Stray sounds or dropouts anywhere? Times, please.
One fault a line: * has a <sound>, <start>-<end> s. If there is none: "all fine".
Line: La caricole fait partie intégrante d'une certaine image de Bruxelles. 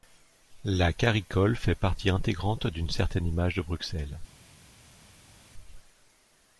all fine